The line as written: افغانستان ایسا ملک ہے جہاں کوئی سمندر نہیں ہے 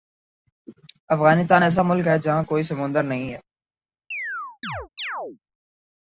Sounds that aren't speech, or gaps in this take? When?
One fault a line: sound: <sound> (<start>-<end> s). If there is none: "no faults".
sound: chirp (4.1-5.4 s)